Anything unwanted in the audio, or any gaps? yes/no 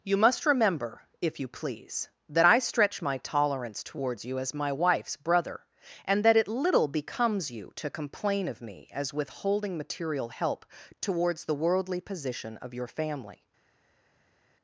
no